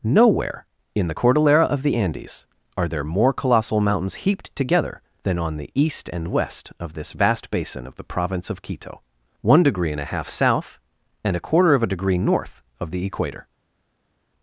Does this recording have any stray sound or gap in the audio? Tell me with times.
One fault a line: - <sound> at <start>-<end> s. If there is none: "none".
none